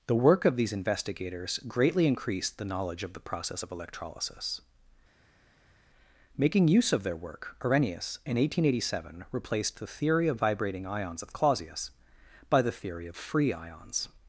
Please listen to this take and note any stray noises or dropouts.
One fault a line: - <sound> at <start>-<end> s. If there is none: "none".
none